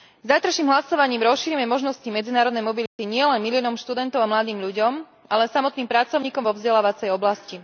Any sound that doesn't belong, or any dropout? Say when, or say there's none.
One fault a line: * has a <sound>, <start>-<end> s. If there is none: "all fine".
* has a dropout, 2.9-3.0 s